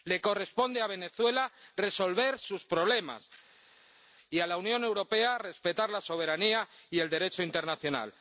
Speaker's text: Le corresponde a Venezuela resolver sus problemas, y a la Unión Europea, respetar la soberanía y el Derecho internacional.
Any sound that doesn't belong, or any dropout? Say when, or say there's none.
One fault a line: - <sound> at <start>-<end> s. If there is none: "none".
none